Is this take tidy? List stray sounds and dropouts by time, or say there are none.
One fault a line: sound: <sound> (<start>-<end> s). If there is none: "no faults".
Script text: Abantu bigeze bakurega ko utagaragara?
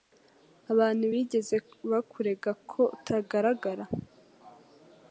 no faults